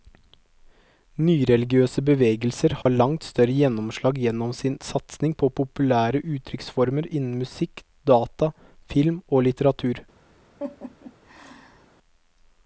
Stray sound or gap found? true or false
true